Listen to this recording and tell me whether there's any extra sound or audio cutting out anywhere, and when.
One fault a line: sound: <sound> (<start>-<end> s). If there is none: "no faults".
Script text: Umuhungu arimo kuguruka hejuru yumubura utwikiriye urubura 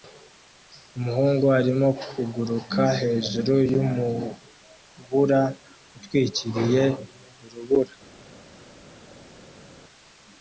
no faults